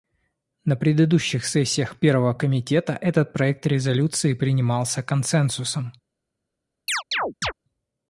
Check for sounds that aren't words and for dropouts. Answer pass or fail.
fail